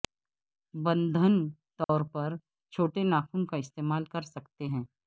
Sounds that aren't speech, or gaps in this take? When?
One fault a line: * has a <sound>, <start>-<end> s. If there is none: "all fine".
* has a dropout, 1.8-1.9 s